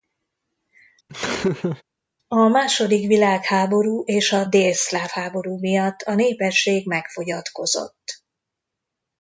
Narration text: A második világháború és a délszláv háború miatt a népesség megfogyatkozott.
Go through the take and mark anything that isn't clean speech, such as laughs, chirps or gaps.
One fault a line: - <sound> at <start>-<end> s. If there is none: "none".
- laugh at 1.1-1.8 s